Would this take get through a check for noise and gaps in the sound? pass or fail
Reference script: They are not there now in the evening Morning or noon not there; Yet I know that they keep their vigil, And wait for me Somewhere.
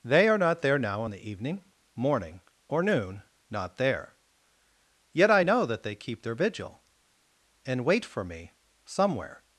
pass